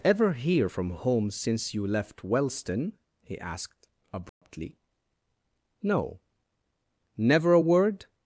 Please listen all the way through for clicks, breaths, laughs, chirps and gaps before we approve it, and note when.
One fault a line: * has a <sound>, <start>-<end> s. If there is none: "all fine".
* has a dropout, 4.3-4.4 s